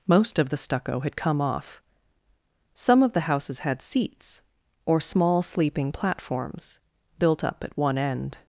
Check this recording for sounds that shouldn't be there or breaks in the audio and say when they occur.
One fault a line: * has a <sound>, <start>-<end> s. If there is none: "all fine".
all fine